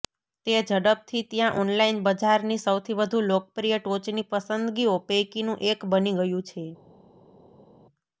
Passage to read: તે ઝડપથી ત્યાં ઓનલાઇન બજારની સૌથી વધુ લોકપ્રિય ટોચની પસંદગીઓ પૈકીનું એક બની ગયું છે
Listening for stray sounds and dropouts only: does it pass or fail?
pass